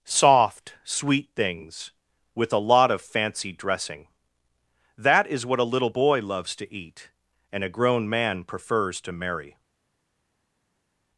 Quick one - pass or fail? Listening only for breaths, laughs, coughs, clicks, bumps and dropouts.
pass